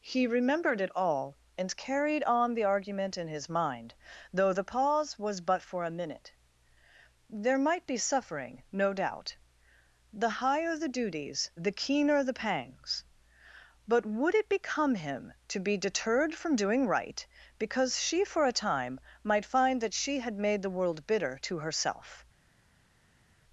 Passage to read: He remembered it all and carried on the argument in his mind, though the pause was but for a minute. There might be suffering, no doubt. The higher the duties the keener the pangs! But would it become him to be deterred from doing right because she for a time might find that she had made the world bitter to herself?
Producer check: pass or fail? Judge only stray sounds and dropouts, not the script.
pass